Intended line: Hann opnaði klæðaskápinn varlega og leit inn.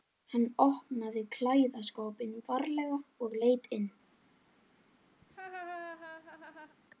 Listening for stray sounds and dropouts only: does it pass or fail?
fail